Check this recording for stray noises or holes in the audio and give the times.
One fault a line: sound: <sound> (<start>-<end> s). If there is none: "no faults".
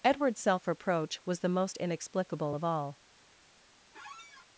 sound: squeak (3.9-4.5 s)